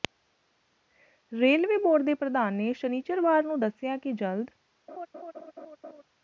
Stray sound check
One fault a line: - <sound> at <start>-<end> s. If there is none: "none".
- laugh at 4.9-6.0 s